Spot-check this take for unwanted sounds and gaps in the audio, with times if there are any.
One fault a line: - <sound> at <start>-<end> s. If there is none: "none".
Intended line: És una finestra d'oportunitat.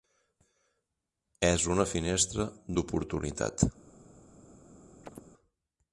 - chirp at 5.0-5.2 s